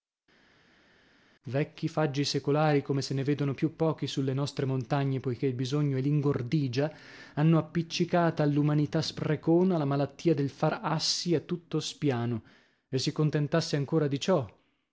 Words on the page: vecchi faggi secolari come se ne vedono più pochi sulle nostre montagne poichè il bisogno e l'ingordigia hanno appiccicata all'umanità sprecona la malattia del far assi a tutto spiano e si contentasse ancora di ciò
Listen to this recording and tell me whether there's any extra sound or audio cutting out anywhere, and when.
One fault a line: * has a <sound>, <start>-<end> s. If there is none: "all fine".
all fine